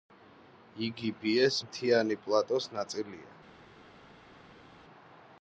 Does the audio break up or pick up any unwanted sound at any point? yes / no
no